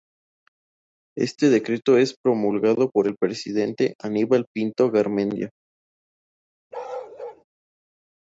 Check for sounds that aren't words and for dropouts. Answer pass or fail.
fail